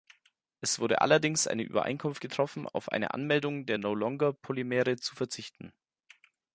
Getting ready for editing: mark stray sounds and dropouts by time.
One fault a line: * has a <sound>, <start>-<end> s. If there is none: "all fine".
all fine